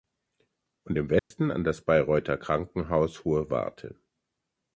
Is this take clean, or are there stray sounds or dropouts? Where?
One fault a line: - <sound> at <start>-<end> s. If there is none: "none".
- dropout at 1.2-1.3 s